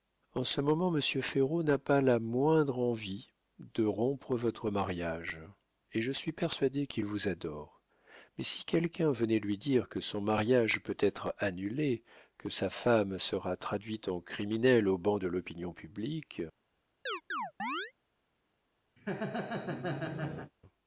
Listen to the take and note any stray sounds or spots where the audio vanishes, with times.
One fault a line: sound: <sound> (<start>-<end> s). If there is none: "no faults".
sound: chirp (17.1-17.9 s)
sound: laugh (19.0-20.5 s)